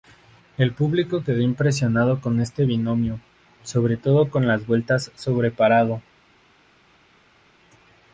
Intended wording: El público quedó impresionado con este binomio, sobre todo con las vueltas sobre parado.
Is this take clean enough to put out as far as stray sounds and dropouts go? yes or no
yes